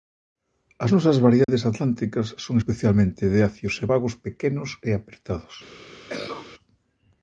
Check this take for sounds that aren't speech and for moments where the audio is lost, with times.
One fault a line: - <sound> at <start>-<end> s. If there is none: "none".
- dropout at 1.4-1.5 s
- cough at 6.1-6.5 s